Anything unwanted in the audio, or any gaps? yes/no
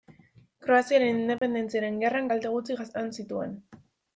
yes